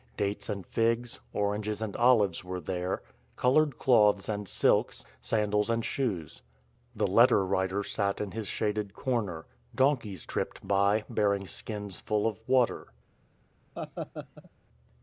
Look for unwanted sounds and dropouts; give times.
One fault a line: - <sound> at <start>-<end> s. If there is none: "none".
- laugh at 13.7-14.5 s